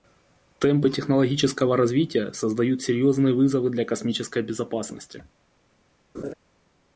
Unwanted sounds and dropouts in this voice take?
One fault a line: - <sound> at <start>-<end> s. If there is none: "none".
- laugh at 6.1-6.3 s